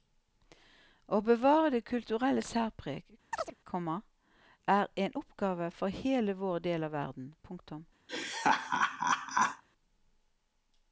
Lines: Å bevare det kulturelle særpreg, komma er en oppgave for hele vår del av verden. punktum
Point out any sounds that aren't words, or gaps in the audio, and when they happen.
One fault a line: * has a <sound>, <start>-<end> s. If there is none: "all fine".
* has a chirp, 3.3-3.5 s
* has a laugh, 8.1-9.6 s